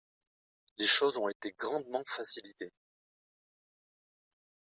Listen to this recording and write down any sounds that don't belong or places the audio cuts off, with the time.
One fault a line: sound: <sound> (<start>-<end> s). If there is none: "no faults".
no faults